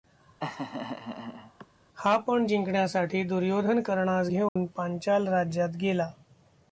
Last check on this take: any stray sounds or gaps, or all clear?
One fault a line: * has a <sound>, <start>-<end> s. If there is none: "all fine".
* has a laugh, 0.4-1.7 s
* has a dropout, 4.5-4.6 s